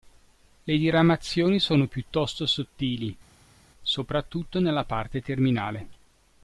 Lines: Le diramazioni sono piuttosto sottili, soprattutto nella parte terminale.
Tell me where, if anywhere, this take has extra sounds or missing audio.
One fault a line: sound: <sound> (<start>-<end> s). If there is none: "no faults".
no faults